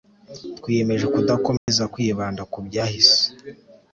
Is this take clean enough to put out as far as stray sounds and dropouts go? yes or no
no